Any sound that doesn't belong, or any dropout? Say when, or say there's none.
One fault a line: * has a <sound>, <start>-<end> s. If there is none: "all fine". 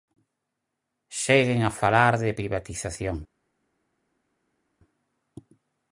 all fine